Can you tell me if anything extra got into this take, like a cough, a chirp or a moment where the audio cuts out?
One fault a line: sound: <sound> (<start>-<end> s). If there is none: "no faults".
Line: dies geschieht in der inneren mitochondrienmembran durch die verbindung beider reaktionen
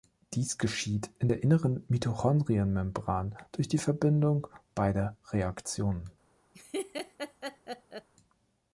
sound: laugh (6.5-8.1 s)